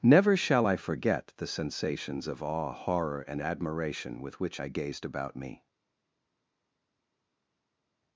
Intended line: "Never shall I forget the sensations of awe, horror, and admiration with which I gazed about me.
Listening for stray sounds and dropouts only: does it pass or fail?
pass